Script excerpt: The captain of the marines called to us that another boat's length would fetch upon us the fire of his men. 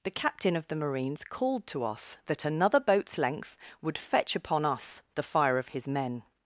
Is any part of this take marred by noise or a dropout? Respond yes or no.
no